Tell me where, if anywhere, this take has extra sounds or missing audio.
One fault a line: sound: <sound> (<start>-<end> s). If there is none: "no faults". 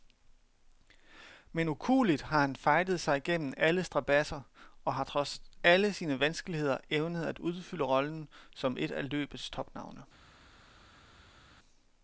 no faults